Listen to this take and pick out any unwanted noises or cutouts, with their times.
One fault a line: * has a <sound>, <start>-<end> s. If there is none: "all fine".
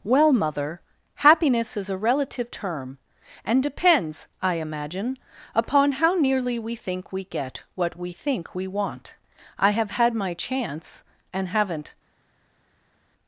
all fine